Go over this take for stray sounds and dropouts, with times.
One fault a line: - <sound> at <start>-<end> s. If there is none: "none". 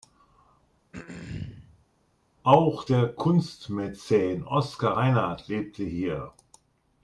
- throat clearing at 0.9-1.9 s